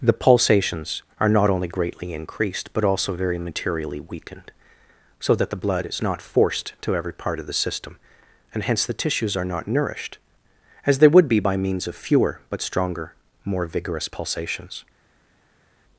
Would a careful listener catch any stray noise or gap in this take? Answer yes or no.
no